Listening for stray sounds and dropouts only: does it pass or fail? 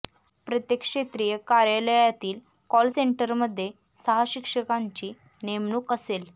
pass